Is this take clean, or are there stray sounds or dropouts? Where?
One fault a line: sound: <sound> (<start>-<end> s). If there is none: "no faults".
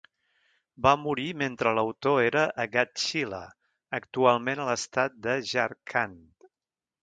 no faults